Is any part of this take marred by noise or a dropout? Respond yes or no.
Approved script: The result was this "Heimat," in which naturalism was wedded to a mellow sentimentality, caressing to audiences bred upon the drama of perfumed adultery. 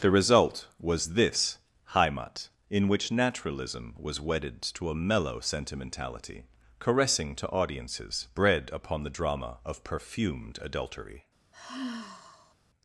yes